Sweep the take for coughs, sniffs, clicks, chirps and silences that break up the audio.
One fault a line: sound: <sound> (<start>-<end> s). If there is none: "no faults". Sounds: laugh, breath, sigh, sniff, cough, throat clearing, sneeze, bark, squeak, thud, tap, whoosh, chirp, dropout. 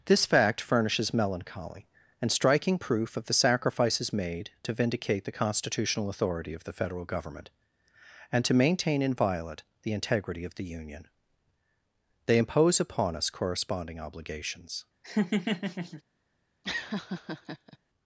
sound: laugh (15.0-16.0 s)
sound: laugh (16.6-17.8 s)